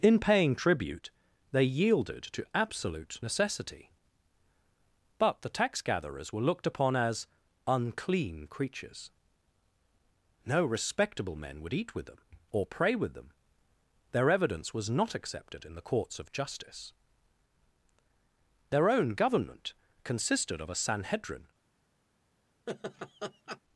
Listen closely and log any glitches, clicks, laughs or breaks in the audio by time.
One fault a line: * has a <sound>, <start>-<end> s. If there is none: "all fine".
* has a laugh, 22.7-23.6 s